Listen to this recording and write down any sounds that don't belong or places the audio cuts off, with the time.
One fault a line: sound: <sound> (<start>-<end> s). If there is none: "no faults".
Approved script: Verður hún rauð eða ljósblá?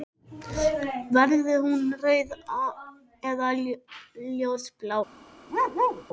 sound: bark (5.5-6.0 s)